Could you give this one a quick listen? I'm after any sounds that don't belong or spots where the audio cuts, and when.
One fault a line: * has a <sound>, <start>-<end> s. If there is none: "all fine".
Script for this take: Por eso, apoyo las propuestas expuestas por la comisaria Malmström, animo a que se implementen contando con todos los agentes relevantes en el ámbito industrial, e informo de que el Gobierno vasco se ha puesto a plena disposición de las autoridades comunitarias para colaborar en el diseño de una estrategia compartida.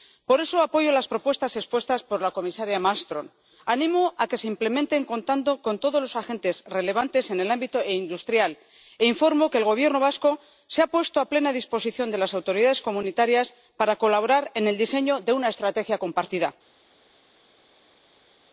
all fine